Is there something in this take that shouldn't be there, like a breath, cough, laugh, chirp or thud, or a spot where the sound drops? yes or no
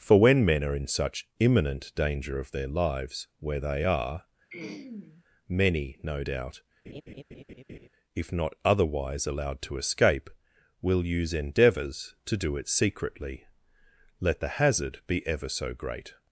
yes